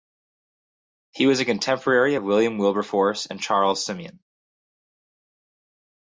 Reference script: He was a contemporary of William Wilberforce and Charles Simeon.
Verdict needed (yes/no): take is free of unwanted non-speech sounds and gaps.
yes